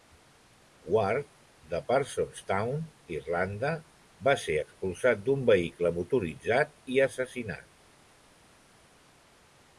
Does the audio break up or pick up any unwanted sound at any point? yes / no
no